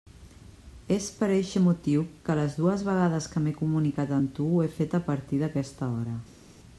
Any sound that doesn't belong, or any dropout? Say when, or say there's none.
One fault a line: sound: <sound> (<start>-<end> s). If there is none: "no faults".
no faults